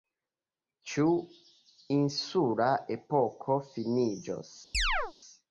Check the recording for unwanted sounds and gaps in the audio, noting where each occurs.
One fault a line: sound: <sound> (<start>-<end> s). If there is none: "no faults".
sound: chirp (4.7-5.1 s)